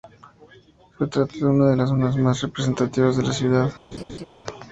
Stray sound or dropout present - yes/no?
yes